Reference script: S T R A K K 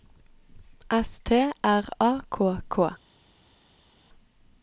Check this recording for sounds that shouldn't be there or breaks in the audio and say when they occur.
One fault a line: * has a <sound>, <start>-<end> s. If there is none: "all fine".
all fine